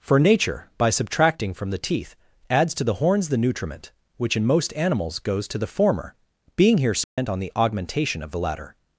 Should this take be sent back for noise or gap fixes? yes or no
yes